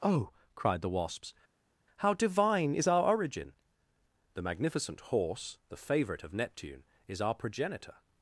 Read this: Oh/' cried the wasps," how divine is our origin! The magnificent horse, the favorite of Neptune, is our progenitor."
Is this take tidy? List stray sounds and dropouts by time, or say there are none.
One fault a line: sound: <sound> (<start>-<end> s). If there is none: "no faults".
no faults